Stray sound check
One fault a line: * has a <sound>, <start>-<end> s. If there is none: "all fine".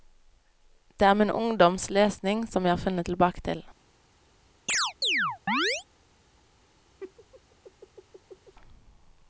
* has a chirp, 4.7-5.8 s
* has a laugh, 7.0-8.5 s